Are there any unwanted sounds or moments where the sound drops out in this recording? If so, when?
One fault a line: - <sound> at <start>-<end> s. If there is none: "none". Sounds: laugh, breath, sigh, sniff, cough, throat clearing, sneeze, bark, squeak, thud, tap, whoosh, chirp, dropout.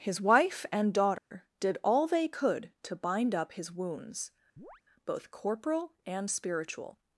- dropout at 1.2-1.3 s
- chirp at 4.6-4.8 s